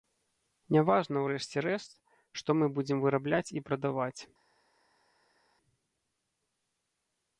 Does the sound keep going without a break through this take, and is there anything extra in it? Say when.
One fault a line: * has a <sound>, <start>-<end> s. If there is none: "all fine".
all fine